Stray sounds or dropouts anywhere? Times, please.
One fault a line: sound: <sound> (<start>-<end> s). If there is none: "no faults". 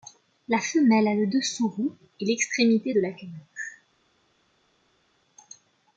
no faults